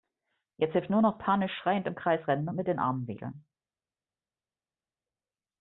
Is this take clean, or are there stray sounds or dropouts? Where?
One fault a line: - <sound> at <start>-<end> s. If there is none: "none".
none